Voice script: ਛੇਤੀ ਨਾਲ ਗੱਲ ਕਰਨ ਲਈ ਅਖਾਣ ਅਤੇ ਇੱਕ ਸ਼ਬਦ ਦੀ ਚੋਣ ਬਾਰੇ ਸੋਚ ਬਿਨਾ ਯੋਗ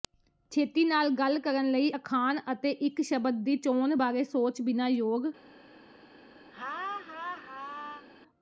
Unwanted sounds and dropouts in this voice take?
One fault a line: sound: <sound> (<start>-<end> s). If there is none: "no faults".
sound: laugh (6.5-8.1 s)